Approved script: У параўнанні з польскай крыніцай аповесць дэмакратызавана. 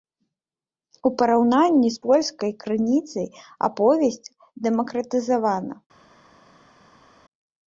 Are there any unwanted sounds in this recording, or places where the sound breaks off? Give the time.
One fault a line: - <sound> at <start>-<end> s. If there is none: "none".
none